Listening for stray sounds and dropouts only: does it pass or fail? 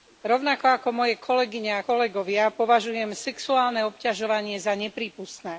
pass